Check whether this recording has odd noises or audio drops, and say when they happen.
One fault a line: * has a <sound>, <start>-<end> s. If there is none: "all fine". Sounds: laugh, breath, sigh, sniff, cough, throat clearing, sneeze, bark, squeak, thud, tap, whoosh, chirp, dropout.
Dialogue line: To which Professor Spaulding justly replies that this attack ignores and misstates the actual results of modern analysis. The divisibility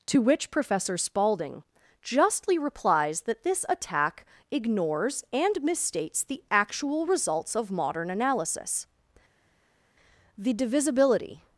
all fine